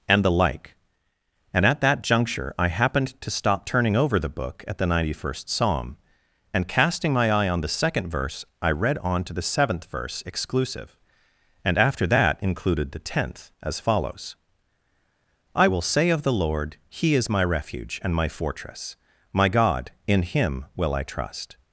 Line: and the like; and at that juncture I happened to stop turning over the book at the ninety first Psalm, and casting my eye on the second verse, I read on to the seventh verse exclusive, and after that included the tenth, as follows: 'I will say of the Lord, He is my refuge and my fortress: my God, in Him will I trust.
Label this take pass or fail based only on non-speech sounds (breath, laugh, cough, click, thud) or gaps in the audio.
pass